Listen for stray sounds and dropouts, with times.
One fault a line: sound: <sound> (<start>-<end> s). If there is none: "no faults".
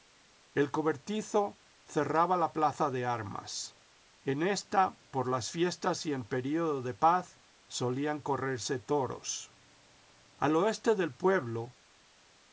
no faults